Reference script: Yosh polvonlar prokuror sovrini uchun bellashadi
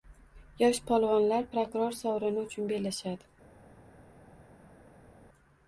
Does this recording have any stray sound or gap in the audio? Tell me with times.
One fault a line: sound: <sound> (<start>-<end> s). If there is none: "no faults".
no faults